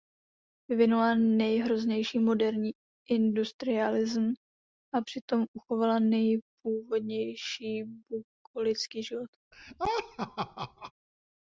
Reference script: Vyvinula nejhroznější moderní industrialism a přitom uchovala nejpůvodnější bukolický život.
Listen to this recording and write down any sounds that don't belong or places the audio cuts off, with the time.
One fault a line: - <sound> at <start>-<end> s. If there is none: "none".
- laugh at 9.5-10.9 s